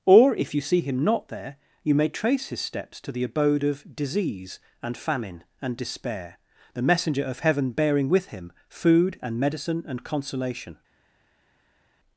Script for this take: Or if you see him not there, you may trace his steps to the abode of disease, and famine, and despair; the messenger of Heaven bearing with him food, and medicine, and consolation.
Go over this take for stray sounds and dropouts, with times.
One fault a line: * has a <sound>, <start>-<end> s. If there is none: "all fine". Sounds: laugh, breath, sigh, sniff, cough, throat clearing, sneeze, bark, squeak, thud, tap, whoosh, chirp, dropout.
all fine